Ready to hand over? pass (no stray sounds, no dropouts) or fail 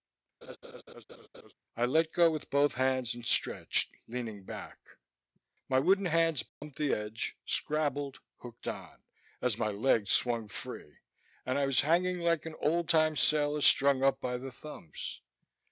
fail